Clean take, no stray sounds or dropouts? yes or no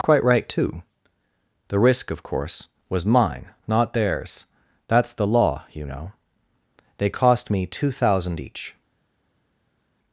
yes